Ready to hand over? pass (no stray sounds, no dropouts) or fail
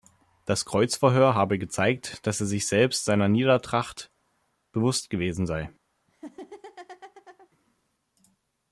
fail